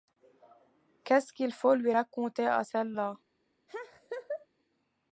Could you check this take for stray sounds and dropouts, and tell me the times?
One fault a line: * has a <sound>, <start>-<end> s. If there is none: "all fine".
* has a laugh, 3.7-4.5 s